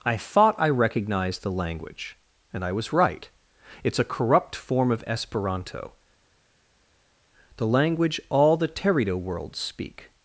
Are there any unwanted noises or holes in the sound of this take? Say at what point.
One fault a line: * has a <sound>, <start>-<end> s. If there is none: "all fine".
all fine